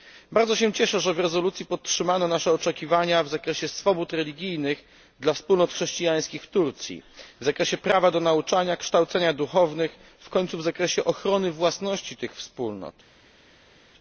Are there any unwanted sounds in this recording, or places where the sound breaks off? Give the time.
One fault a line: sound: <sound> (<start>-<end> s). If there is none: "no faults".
no faults